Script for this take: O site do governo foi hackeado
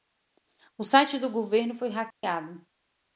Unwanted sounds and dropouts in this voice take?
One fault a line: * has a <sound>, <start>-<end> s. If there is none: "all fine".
* has a dropout, 2.1-2.2 s